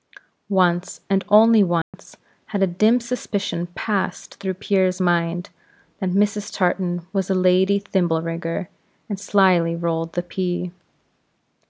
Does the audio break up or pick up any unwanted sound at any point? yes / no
yes